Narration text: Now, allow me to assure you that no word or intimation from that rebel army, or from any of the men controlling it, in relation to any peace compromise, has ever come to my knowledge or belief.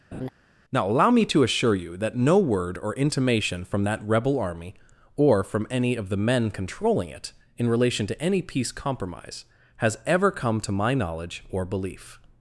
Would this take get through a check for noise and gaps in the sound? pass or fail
fail